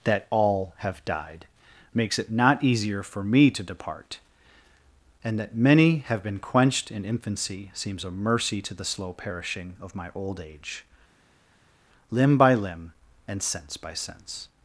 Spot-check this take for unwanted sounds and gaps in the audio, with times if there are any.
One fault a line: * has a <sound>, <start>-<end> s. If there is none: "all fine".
all fine